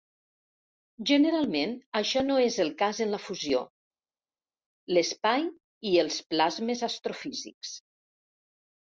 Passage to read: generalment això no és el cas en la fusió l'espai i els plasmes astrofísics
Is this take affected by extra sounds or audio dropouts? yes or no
no